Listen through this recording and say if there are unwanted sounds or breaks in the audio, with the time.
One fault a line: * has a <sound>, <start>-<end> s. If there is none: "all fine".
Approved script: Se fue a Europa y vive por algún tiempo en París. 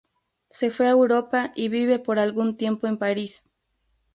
all fine